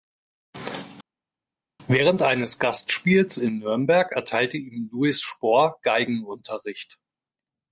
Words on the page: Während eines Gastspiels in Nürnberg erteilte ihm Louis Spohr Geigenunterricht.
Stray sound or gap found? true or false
false